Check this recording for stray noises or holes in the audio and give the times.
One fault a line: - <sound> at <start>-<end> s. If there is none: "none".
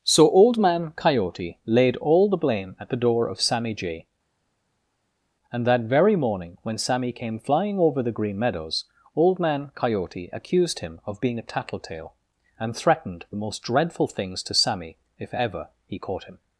none